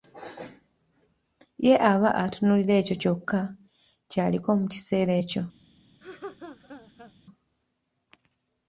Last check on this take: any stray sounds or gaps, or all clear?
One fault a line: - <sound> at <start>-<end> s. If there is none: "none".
- laugh at 6.0-7.1 s